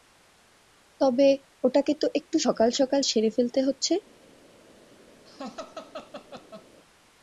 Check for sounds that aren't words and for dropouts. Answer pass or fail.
fail